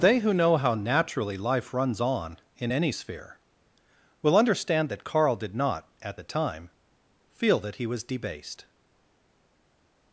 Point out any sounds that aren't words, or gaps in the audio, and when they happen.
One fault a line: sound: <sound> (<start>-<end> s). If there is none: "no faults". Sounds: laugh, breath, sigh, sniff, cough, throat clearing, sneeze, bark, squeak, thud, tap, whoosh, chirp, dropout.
no faults